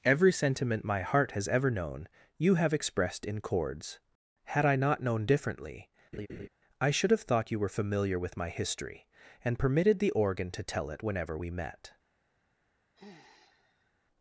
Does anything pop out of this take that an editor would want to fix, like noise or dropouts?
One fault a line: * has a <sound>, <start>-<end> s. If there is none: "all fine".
* has a laugh, 6.1-6.5 s
* has a sigh, 13.0-13.9 s